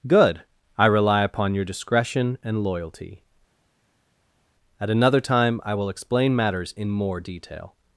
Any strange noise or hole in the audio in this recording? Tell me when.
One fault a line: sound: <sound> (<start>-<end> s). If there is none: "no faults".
no faults